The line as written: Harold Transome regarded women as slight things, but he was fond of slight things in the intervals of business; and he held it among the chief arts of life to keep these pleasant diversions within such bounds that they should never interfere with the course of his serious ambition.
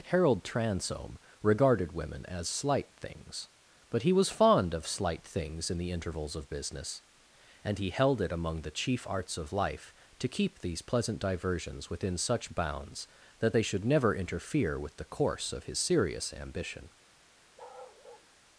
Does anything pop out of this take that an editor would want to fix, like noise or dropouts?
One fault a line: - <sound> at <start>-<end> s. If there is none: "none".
- bark at 17.6-18.3 s